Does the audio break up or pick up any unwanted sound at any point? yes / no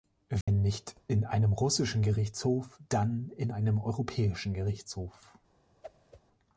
yes